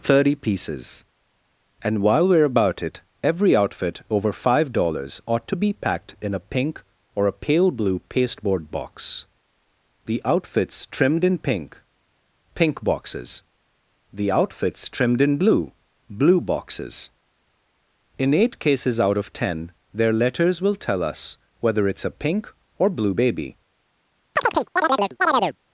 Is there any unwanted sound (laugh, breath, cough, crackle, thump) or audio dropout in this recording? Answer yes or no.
yes